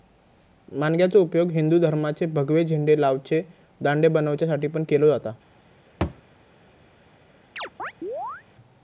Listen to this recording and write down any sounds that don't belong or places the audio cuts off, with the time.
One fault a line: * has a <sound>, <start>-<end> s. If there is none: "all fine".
* has a thud, 6.0-6.2 s
* has a chirp, 7.6-8.4 s